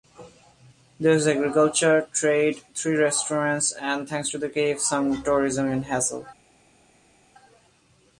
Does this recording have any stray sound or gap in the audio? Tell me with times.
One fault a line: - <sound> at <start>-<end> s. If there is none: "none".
none